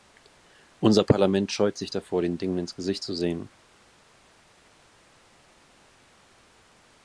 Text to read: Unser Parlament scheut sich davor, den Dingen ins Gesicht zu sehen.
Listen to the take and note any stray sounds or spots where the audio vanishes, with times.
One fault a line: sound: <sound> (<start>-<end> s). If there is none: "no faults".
no faults